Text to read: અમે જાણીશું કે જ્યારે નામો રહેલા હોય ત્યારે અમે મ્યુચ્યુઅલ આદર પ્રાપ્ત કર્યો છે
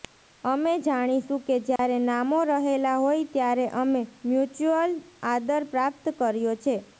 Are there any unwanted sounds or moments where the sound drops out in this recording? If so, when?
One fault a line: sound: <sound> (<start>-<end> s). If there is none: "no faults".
sound: dropout (1.8-1.8 s)